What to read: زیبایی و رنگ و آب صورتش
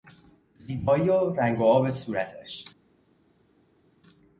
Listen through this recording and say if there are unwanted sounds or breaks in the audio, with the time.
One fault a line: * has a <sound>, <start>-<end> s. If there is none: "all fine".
all fine